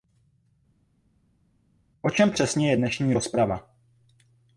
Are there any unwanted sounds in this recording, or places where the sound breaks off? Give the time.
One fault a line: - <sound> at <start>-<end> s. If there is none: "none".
none